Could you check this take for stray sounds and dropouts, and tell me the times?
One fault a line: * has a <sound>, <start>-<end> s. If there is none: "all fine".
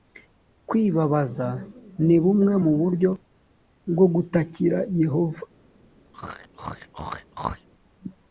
* has a throat clearing, 6.1-7.7 s